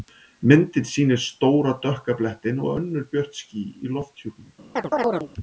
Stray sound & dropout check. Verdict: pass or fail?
fail